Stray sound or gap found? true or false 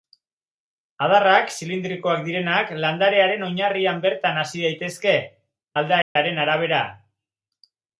true